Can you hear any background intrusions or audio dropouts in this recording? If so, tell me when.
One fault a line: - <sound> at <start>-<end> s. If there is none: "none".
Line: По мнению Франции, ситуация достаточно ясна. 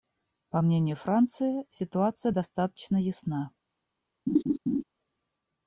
- laugh at 4.3-4.8 s